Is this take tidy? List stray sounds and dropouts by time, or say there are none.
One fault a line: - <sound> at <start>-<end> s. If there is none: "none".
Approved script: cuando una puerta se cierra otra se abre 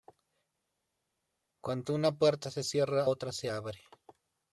none